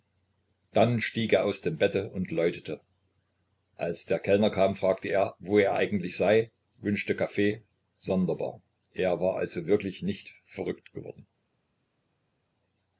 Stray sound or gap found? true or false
false